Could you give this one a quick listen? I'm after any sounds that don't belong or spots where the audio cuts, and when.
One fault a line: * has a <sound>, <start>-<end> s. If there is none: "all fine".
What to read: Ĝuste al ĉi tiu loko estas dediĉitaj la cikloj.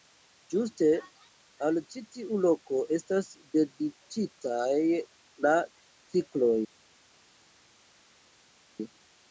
all fine